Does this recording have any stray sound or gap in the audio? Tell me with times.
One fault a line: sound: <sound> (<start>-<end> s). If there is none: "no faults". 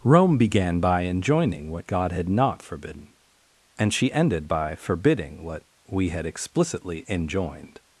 no faults